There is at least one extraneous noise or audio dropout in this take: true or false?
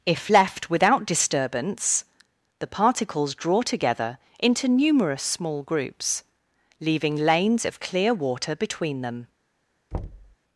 true